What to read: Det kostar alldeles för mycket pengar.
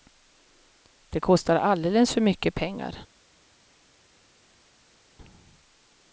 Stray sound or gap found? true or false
false